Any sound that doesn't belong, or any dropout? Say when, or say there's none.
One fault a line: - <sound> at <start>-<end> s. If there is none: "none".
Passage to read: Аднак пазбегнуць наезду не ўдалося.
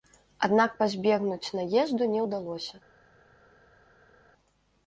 none